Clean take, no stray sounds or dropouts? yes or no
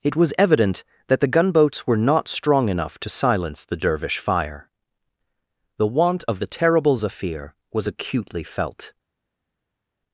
yes